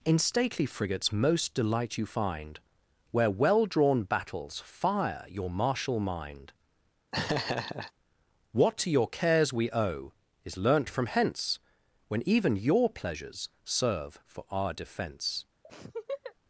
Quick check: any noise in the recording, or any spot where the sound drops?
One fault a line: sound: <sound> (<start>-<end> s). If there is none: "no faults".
sound: laugh (7.1-7.9 s)
sound: laugh (15.6-16.3 s)